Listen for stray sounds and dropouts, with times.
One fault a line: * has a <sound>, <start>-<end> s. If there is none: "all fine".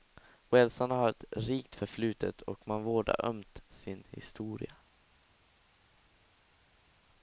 all fine